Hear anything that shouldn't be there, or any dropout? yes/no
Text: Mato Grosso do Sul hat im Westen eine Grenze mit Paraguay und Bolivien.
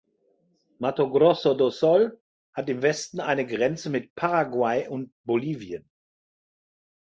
no